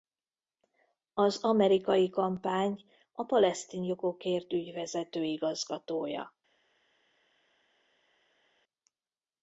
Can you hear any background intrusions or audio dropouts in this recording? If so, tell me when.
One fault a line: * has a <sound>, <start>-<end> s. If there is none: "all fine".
all fine